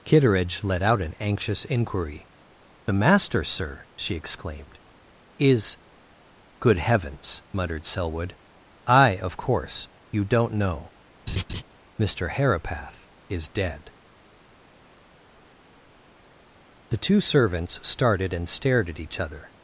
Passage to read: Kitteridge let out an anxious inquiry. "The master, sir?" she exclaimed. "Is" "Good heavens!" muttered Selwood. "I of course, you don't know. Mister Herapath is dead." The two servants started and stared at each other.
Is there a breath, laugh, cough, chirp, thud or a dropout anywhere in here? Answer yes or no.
yes